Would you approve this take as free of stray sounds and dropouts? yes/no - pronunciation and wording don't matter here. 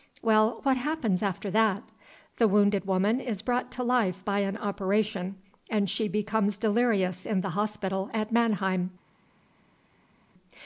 yes